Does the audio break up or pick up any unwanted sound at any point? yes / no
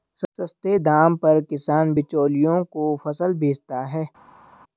no